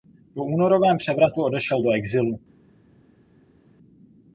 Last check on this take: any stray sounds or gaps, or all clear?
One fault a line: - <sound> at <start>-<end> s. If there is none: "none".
none